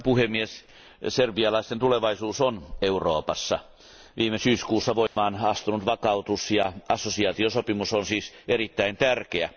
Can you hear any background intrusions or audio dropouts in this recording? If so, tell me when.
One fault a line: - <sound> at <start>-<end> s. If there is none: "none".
- dropout at 5.1-5.2 s